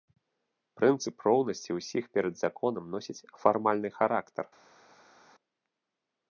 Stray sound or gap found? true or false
false